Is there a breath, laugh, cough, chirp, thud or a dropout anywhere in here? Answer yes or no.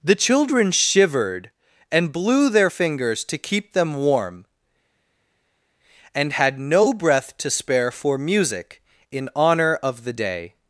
no